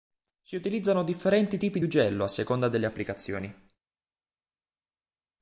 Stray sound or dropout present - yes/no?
no